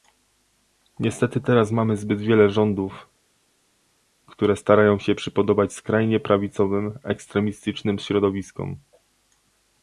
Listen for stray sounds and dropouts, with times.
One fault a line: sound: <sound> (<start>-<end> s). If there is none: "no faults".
no faults